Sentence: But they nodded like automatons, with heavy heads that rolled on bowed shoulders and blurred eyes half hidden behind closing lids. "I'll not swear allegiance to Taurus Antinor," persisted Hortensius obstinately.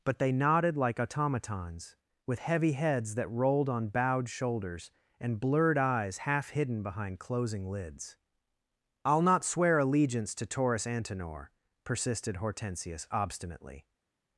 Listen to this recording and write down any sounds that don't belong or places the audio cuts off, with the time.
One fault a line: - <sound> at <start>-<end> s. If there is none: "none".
none